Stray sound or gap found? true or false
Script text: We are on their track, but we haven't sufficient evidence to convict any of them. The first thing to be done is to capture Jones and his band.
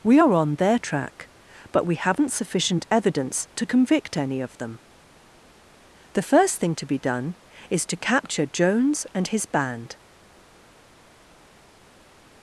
false